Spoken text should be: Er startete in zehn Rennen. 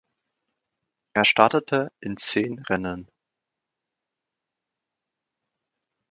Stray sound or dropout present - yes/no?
no